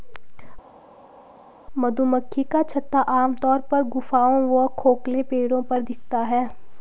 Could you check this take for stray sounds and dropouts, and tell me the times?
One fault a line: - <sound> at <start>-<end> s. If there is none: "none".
none